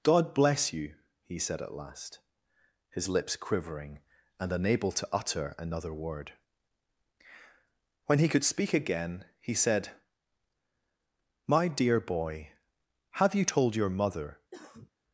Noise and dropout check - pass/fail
fail